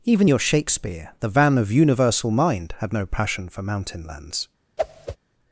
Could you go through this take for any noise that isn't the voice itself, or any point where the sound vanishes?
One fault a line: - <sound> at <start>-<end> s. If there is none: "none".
- whoosh at 4.8-5.2 s